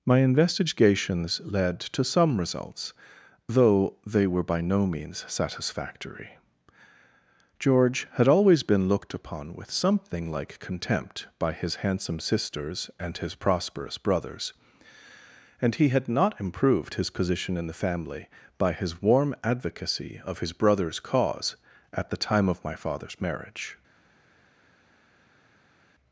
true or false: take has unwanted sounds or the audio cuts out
false